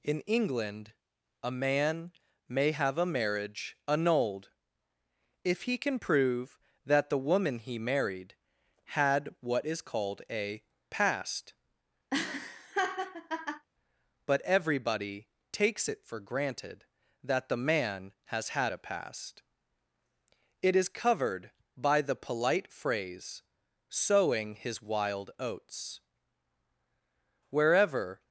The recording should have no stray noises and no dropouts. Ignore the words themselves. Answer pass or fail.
fail